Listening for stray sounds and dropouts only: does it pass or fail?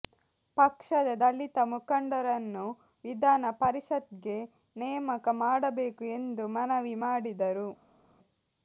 pass